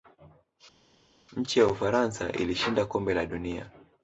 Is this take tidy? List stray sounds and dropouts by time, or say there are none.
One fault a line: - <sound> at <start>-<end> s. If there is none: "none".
none